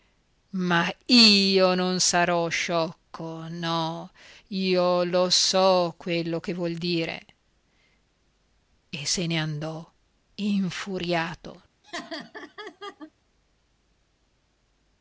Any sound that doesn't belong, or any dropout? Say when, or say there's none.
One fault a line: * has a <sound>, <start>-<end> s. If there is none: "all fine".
* has a laugh, 11.8-13.1 s